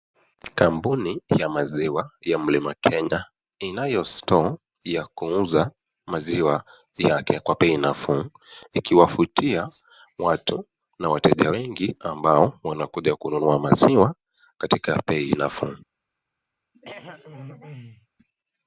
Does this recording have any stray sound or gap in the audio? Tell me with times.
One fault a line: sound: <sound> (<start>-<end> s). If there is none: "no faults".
sound: throat clearing (16.7-18.1 s)